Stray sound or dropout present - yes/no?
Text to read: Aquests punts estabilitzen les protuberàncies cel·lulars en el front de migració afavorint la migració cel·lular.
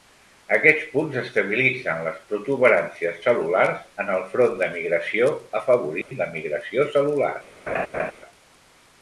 yes